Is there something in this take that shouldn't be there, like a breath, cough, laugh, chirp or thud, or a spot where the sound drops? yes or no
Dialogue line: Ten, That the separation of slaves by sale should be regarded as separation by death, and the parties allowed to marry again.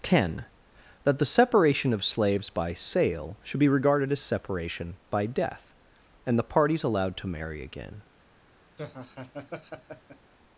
yes